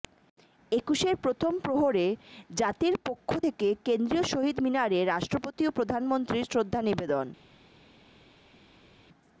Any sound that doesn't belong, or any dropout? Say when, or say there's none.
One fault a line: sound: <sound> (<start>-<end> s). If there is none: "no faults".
no faults